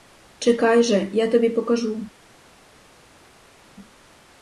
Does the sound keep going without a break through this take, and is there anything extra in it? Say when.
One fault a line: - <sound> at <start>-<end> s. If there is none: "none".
none